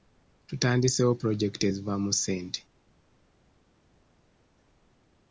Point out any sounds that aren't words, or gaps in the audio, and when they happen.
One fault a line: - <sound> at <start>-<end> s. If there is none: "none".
none